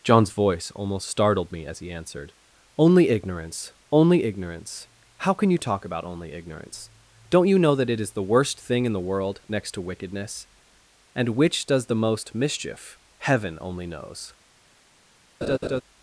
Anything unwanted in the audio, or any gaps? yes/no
yes